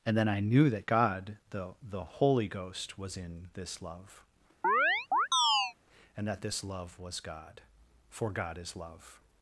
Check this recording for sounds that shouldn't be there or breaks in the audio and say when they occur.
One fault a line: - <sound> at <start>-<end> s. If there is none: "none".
- chirp at 4.6-5.7 s